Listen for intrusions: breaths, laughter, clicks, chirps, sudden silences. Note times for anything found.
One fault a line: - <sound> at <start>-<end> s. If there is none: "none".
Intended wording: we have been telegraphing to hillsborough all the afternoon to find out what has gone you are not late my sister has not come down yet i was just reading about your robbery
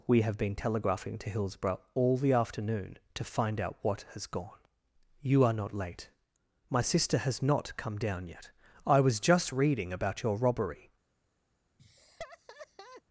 - laugh at 11.8-13.0 s